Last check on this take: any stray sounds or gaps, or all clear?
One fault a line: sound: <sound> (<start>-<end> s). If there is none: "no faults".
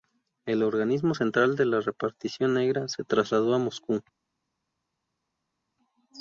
no faults